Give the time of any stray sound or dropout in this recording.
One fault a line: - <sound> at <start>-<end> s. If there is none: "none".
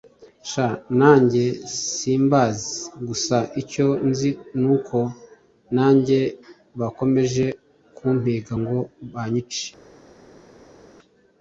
none